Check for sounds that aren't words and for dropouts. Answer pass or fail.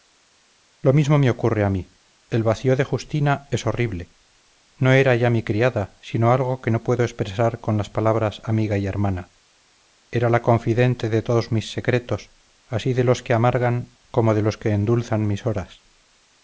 pass